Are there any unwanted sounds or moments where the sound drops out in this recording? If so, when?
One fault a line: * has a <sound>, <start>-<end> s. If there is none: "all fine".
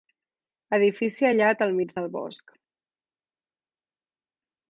all fine